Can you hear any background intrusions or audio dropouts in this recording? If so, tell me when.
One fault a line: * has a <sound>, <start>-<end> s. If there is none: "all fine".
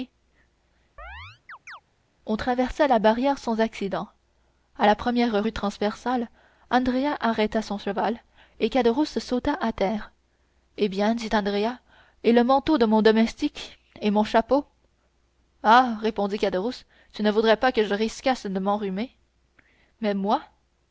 * has a chirp, 1.0-1.8 s